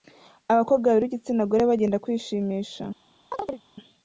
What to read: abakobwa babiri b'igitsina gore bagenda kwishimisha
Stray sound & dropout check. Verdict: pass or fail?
fail